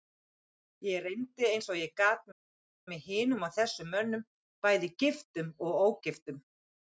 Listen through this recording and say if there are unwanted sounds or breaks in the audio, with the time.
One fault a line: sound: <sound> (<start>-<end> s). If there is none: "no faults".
no faults